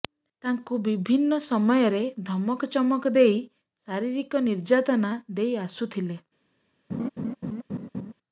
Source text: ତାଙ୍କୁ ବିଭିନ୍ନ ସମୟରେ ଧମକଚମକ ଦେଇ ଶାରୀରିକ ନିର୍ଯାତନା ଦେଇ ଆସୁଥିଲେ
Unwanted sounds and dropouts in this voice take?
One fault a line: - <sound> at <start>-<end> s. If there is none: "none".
- laugh at 6.9-8.1 s